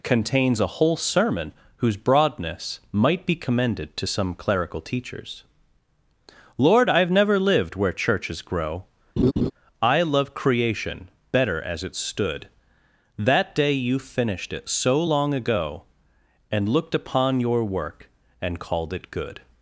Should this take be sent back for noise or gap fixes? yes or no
yes